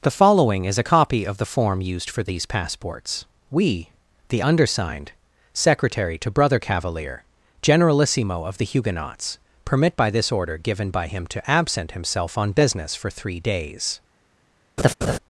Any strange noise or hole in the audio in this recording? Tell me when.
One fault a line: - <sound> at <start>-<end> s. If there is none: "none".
- laugh at 14.8-15.2 s